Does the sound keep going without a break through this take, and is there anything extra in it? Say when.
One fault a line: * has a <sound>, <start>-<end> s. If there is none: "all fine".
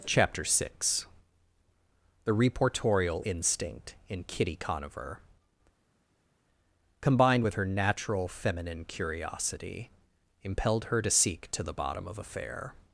all fine